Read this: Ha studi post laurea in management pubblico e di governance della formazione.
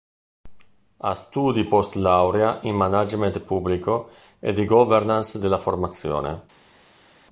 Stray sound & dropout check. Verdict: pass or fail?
pass